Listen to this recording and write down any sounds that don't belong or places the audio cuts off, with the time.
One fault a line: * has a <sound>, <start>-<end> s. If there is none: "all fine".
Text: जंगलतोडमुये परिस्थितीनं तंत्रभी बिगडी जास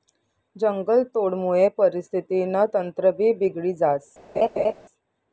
* has a laugh, 4.3-4.7 s